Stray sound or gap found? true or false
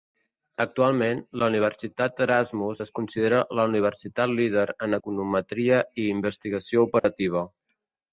true